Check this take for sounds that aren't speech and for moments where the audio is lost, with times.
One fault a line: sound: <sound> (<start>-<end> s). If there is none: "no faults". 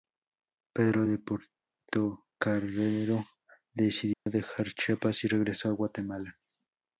sound: dropout (4.1-4.3 s)